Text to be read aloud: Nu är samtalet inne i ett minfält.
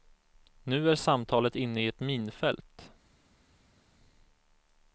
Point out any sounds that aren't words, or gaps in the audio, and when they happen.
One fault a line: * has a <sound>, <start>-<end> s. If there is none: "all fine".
all fine